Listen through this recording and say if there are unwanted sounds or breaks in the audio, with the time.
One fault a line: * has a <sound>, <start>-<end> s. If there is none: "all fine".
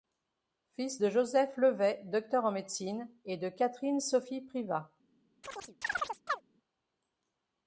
* has a chirp, 5.4-6.4 s